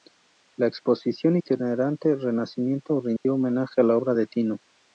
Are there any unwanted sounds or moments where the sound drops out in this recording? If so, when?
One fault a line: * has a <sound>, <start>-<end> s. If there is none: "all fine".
* has a dropout, 3.2-3.3 s